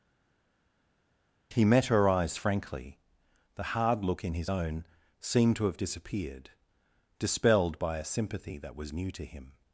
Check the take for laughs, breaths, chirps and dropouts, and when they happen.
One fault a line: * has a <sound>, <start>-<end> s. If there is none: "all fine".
all fine